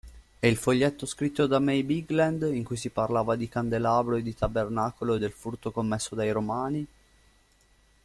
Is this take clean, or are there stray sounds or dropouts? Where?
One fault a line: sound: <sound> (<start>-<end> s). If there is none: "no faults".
no faults